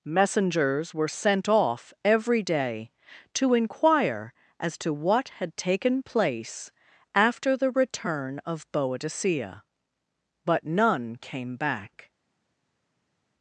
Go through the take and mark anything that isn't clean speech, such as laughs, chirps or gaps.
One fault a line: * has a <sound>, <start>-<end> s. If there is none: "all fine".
all fine